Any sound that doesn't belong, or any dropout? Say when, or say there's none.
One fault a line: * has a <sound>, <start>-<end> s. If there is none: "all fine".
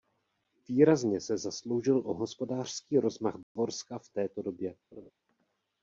* has a dropout, 3.4-3.6 s
* has a laugh, 4.9-5.1 s